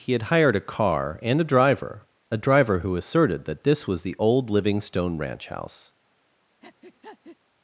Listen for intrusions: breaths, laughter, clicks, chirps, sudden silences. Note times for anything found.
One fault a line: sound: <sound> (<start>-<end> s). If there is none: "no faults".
sound: breath (6.6-7.4 s)